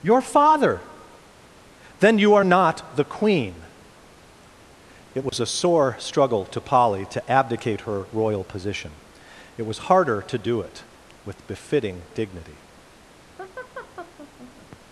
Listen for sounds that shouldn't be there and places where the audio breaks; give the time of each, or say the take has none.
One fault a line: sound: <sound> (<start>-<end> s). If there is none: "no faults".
sound: dropout (5.3-5.3 s)
sound: laugh (13.4-14.8 s)